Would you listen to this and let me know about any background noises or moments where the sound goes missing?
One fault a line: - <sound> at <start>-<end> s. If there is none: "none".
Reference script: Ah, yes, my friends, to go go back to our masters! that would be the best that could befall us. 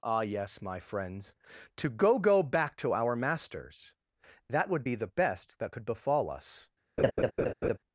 - laugh at 7.0-7.8 s